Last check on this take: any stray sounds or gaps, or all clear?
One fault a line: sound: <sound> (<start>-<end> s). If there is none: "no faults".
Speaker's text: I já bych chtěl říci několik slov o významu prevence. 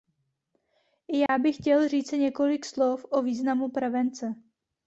sound: dropout (1.3-1.3 s)